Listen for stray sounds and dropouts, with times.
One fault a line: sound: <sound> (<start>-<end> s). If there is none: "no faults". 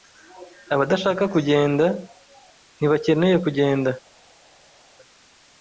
no faults